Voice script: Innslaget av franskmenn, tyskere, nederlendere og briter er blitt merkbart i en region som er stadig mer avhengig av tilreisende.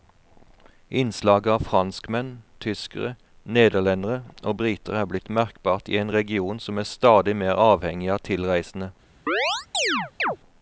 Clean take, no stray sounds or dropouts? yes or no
no